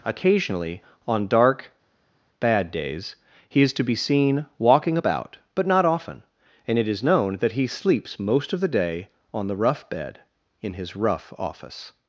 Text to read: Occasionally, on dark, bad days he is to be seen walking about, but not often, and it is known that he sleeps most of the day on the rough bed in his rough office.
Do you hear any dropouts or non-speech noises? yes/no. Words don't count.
no